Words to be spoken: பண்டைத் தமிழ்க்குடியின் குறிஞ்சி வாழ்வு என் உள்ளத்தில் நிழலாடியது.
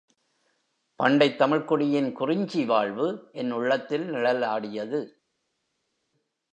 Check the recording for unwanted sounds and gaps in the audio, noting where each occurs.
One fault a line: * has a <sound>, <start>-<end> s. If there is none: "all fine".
all fine